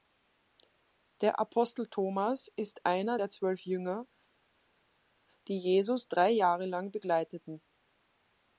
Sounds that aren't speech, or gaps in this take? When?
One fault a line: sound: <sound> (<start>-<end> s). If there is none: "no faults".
no faults